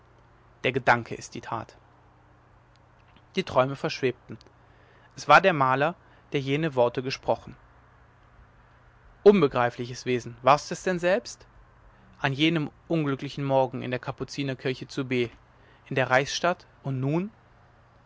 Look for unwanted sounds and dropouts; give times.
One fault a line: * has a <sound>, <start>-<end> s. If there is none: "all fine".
all fine